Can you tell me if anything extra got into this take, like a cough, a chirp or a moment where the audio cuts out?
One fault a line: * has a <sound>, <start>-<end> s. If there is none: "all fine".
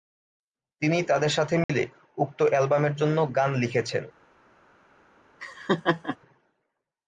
* has a dropout, 1.6-1.7 s
* has a laugh, 5.4-6.2 s